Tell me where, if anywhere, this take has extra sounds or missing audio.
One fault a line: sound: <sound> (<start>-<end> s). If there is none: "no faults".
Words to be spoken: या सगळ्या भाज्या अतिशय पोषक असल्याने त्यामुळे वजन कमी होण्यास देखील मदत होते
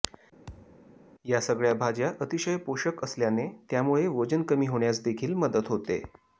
sound: thud (0.5-0.8 s)